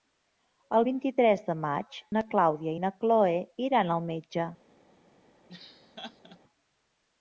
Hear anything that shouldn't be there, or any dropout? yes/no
yes